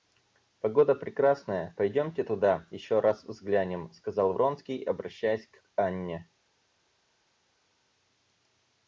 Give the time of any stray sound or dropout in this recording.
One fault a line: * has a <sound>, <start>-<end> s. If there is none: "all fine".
all fine